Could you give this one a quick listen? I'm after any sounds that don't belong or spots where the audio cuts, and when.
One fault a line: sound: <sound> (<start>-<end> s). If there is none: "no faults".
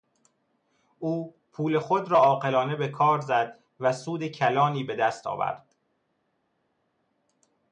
no faults